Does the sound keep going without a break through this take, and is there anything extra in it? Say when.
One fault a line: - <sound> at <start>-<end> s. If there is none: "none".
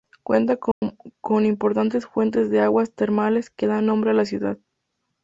- dropout at 0.7-0.8 s